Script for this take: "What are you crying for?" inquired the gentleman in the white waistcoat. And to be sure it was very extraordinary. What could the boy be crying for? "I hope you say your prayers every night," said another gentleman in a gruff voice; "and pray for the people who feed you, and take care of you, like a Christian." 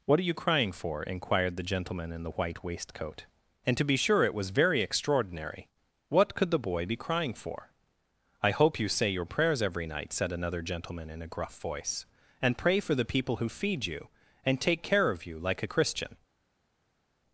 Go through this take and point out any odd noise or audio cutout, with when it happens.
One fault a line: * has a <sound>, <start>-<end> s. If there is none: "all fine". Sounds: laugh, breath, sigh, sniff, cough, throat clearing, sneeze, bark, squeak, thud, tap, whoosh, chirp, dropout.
all fine